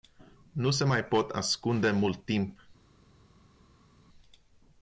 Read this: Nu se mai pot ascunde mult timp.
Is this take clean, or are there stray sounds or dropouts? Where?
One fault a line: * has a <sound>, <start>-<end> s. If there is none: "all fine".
all fine